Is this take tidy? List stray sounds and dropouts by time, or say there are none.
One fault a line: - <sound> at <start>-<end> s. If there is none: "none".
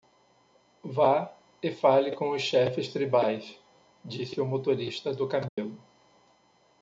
- dropout at 5.5-5.6 s